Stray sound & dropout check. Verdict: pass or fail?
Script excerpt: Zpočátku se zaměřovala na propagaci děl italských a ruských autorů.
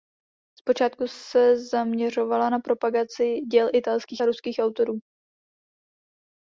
pass